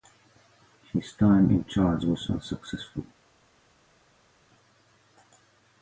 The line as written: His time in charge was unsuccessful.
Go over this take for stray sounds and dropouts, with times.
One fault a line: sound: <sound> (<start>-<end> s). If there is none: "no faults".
no faults